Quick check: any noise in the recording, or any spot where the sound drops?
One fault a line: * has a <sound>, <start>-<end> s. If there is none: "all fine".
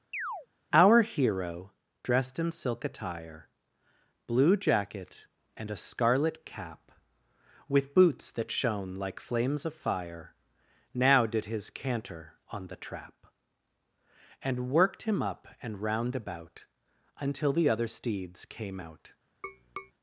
* has a chirp, 0.1-0.5 s
* has a tap, 19.4-19.9 s